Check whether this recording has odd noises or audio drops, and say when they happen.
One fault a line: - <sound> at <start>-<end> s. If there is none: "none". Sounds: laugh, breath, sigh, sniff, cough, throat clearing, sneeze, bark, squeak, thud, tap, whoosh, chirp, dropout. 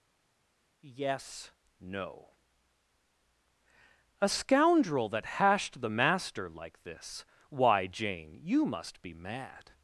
none